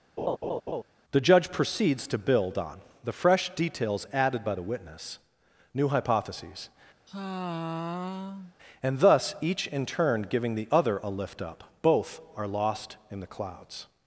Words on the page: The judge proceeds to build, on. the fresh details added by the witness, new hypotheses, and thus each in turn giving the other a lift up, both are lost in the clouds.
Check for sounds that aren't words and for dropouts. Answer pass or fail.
fail